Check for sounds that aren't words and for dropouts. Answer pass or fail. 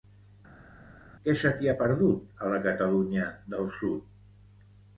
pass